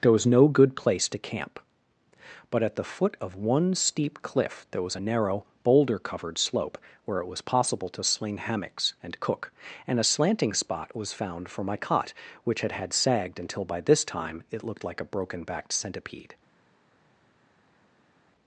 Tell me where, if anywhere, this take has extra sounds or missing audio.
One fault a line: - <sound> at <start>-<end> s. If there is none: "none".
none